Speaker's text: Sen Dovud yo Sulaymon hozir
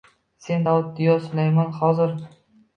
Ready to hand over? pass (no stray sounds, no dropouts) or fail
pass